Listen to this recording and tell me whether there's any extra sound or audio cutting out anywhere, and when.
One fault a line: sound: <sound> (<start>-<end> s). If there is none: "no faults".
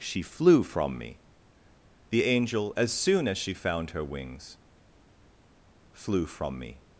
no faults